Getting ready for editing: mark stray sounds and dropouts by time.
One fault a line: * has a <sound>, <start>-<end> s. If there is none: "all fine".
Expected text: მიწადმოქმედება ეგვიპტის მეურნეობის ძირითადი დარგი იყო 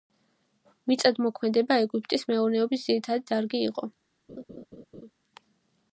* has a laugh, 4.3-5.1 s